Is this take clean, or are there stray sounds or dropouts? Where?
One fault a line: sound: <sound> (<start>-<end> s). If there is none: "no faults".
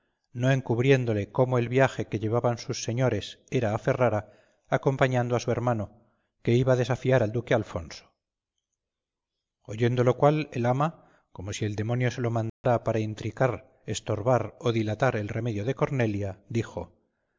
sound: dropout (12.5-12.6 s)